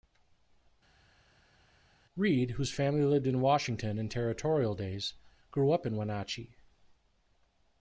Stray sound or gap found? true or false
false